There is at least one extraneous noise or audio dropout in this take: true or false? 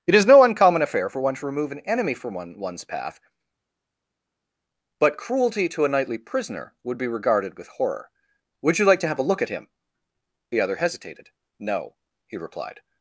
false